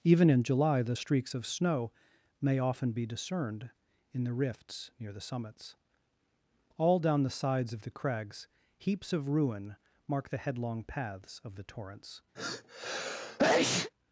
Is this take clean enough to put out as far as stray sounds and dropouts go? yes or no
no